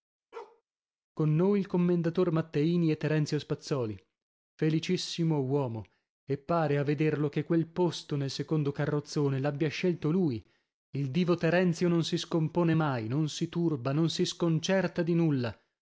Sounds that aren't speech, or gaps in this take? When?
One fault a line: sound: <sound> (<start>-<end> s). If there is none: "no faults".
sound: bark (0.3-0.6 s)